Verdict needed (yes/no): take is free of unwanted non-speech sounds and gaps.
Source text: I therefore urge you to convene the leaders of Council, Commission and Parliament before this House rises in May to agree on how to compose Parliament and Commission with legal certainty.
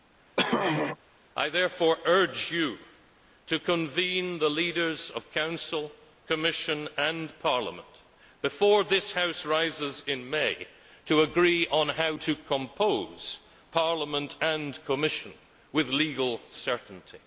no